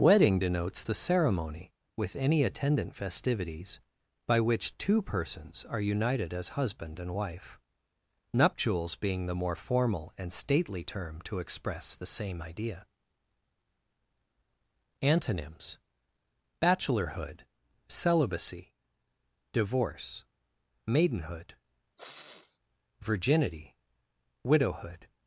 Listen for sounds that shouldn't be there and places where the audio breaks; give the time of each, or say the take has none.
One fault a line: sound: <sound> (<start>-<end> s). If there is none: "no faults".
sound: sniff (22.0-22.6 s)